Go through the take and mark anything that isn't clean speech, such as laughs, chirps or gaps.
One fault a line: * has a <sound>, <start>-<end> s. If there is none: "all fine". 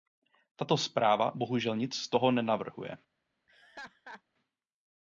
* has a laugh, 3.5-4.2 s